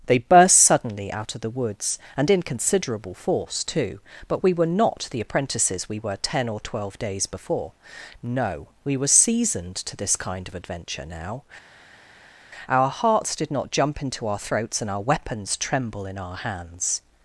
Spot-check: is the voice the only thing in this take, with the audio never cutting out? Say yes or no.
yes